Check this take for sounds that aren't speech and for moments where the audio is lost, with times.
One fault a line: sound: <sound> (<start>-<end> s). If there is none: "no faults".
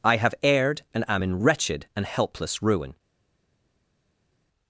no faults